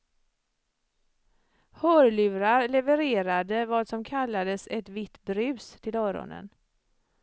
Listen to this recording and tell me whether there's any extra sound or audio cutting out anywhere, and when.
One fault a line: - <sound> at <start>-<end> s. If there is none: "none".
none